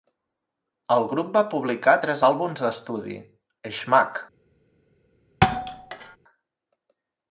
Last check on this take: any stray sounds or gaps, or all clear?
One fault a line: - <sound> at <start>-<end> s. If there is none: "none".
- thud at 5.4-6.2 s